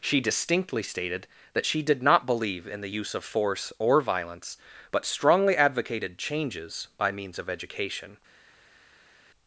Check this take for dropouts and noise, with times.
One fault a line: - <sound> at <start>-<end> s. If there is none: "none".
none